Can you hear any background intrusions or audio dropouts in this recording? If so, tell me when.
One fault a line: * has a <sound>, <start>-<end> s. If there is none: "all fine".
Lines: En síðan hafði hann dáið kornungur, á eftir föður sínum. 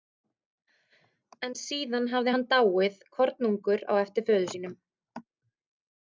all fine